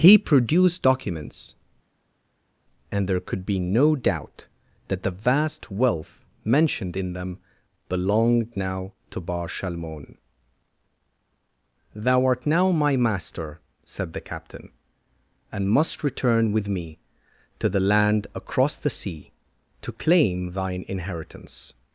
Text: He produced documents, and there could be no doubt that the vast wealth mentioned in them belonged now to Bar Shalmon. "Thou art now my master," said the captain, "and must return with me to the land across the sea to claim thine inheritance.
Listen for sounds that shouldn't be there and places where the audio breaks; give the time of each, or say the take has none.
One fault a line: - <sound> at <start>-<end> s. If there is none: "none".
none